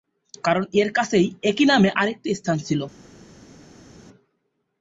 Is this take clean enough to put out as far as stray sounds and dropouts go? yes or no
yes